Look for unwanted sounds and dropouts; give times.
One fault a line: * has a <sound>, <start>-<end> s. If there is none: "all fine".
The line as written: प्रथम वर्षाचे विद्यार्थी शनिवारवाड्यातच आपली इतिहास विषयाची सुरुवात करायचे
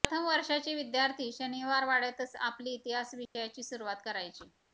* has a dropout, 3.2-3.4 s